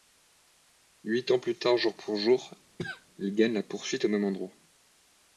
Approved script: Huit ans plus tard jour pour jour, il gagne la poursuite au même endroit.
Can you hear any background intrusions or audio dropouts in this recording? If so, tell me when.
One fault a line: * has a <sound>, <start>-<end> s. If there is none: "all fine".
* has a cough, 2.8-3.1 s